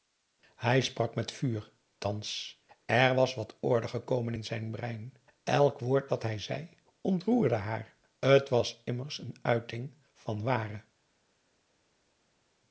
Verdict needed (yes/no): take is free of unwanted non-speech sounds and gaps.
yes